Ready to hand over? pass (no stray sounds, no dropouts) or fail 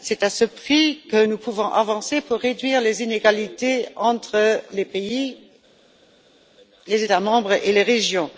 pass